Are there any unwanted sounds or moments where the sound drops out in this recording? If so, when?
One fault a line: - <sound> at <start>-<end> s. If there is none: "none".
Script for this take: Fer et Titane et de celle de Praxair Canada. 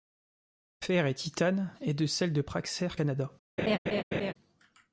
- laugh at 3.6-4.3 s